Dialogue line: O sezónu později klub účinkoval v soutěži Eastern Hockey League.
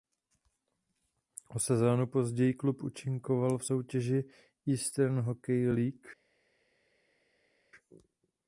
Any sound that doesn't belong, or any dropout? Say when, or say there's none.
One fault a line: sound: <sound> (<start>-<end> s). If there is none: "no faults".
no faults